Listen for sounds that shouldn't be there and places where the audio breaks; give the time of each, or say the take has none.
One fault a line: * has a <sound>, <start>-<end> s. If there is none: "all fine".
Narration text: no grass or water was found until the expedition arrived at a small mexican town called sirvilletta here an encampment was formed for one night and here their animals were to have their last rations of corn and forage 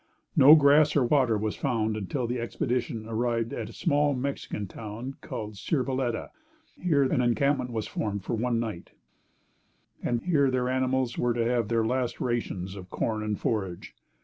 all fine